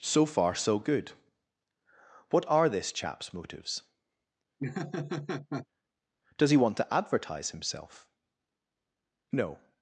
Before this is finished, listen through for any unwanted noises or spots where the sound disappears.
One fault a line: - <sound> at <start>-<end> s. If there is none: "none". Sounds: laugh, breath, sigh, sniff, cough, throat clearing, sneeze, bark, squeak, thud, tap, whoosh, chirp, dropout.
- laugh at 4.6-5.7 s